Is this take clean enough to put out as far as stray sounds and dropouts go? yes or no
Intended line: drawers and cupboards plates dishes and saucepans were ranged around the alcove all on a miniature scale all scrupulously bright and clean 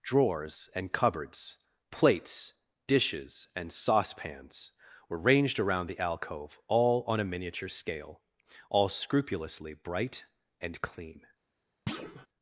no